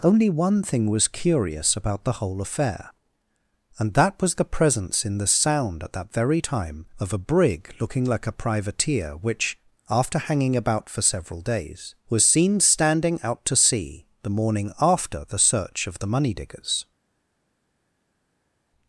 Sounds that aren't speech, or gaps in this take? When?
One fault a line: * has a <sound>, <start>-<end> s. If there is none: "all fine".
all fine